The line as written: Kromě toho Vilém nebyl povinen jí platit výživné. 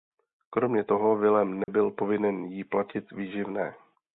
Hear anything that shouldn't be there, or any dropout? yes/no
yes